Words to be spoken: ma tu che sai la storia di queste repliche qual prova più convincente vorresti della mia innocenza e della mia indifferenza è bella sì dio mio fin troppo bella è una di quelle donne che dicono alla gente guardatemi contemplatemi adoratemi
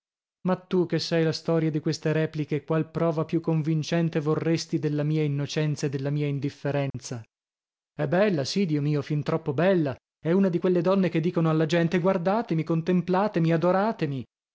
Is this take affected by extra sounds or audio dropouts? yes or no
yes